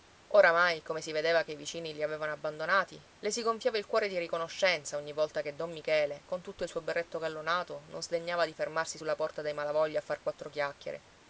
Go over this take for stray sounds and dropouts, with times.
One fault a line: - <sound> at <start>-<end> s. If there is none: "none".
none